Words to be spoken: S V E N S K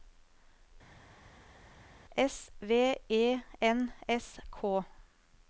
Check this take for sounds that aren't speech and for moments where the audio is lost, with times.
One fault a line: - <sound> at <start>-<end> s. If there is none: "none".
none